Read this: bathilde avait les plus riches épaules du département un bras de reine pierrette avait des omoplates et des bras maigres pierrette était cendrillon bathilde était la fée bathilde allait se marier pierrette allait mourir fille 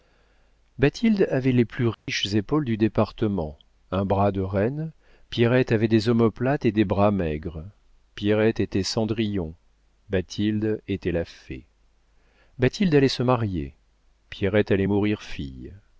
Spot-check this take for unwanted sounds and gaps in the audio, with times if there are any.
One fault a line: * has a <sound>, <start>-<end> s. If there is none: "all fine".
* has a dropout, 1.9-2.1 s